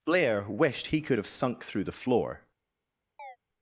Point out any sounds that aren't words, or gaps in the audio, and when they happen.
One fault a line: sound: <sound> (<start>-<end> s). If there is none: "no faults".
sound: chirp (3.2-3.4 s)